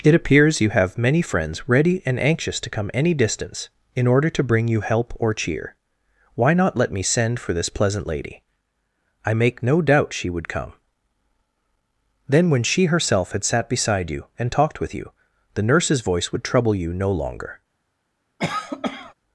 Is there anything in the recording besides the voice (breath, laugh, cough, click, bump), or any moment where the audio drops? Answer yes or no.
yes